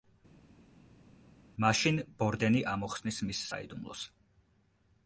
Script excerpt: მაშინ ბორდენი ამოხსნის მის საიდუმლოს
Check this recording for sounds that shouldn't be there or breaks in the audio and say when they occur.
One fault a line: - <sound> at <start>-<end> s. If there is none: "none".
none